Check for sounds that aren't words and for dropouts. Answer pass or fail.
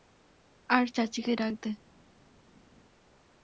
pass